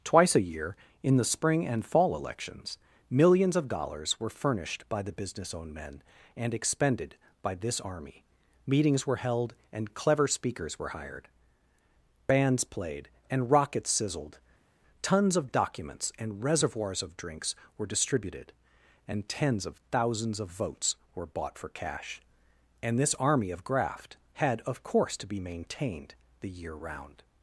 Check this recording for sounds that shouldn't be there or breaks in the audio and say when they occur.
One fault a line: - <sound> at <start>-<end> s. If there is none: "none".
none